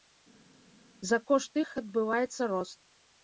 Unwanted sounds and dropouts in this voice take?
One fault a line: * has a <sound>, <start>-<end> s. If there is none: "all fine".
all fine